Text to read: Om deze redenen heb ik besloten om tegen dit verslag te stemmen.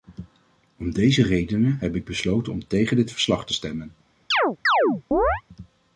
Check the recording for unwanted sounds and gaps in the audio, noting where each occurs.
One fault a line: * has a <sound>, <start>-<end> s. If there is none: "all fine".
* has a chirp, 4.3-5.4 s